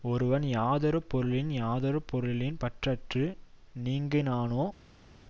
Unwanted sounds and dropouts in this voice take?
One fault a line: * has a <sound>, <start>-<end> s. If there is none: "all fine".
all fine